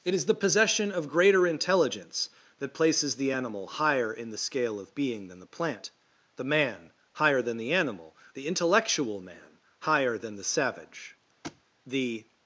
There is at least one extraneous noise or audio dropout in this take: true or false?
true